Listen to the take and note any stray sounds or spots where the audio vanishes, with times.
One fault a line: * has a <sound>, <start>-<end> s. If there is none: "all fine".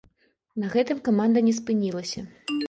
all fine